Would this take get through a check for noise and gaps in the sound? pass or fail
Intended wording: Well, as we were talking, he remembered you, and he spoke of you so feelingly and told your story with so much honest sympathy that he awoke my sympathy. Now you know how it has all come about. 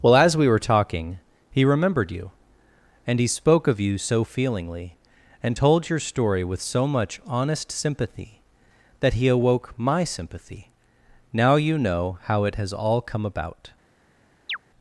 fail